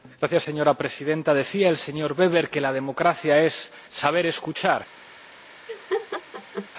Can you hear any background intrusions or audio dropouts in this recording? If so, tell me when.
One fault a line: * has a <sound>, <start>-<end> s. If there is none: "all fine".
* has a laugh, 5.7-6.7 s